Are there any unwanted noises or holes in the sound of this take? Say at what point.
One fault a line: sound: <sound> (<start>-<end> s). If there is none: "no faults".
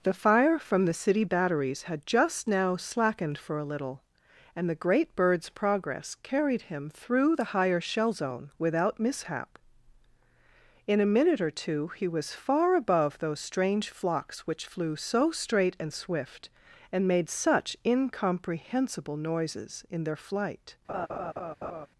sound: laugh (20.9-21.9 s)